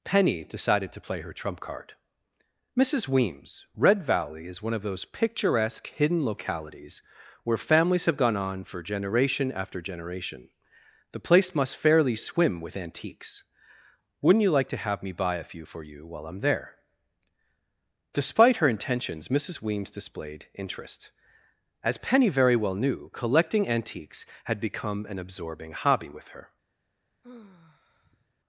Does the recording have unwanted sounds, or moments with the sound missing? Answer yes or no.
yes